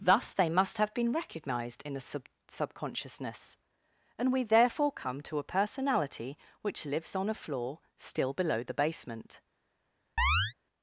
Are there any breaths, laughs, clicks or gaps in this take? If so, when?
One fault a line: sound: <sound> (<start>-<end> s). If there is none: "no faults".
sound: chirp (10.2-10.5 s)